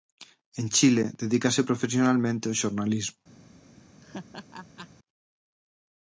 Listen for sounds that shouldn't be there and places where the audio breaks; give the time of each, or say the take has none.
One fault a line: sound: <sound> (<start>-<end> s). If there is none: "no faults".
sound: laugh (4.0-4.9 s)